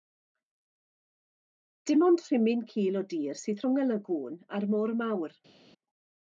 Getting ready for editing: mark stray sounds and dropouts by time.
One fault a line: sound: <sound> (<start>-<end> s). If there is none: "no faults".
no faults